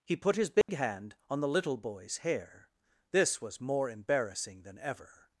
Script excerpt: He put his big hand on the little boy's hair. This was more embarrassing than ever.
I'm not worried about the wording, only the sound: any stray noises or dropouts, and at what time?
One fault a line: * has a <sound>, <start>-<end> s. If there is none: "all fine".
* has a dropout, 0.6-0.7 s